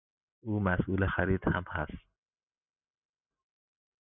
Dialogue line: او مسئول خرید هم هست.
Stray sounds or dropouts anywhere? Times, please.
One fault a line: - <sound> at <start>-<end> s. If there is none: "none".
none